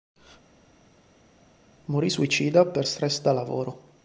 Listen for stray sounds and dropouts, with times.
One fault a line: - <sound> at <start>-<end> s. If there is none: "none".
none